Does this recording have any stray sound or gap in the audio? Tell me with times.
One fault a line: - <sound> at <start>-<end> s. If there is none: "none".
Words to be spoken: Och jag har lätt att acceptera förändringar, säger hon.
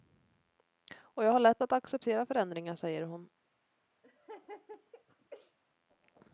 - laugh at 4.0-5.6 s